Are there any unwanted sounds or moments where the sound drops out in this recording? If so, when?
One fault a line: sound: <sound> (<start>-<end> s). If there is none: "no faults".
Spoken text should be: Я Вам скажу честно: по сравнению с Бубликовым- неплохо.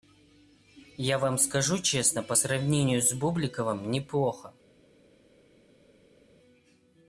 no faults